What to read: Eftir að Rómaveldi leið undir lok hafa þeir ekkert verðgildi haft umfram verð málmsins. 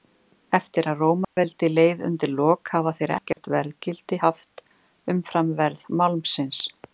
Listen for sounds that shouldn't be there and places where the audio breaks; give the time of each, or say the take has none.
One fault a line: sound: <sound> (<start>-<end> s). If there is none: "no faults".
sound: dropout (1.2-1.4 s)
sound: dropout (3.3-3.4 s)